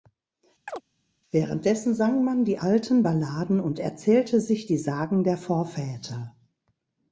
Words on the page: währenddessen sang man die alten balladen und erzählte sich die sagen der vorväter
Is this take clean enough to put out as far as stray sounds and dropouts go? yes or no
no